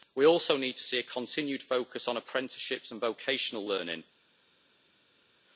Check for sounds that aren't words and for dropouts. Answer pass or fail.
pass